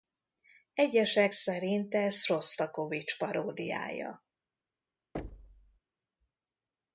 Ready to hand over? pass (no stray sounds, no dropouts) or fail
fail